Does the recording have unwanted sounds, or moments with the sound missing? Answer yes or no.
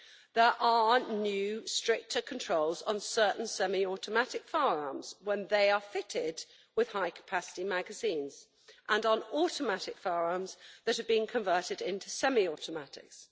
no